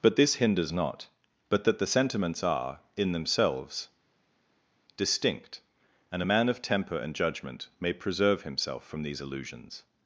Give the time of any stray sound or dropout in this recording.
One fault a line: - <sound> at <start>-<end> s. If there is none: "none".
none